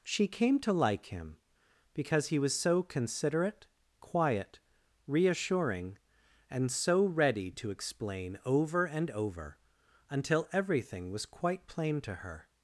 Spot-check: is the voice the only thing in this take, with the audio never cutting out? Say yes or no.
yes